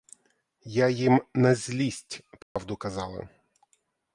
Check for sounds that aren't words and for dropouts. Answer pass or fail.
fail